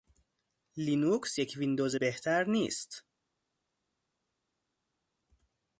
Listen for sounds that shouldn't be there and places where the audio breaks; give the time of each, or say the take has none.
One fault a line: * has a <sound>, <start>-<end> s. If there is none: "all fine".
all fine